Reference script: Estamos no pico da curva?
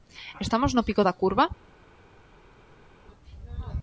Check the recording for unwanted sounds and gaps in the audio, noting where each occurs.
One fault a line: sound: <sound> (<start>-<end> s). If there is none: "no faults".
no faults